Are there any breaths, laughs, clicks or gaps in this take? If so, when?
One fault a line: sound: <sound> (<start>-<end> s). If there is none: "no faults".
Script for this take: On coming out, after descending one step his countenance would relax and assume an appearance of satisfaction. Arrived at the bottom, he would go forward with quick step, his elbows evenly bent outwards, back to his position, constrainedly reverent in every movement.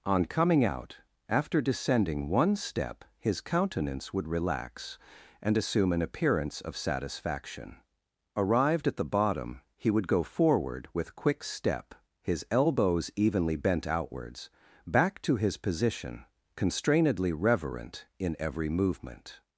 no faults